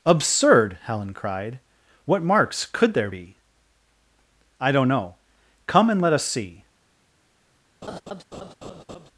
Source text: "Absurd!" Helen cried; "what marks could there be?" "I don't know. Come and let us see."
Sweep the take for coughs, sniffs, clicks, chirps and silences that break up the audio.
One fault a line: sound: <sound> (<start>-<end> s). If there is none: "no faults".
sound: laugh (7.8-9.1 s)